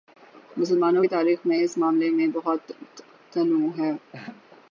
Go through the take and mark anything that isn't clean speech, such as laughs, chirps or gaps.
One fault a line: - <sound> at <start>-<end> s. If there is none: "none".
- laugh at 4.1-4.4 s